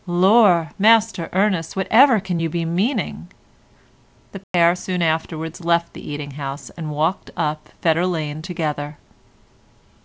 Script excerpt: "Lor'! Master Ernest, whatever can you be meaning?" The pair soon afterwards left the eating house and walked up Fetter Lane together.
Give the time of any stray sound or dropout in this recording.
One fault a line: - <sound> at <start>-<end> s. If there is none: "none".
- dropout at 4.4-4.5 s